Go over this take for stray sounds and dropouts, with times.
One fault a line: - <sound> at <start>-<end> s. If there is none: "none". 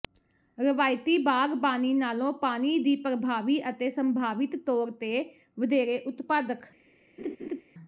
- laugh at 7.2-7.6 s